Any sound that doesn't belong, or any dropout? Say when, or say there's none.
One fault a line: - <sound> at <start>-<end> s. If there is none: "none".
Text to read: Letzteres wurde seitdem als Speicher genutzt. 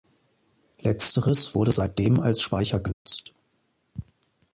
- dropout at 2.9-3.1 s